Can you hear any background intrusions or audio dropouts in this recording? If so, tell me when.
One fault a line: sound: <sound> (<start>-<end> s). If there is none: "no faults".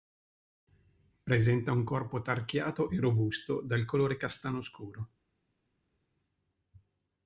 no faults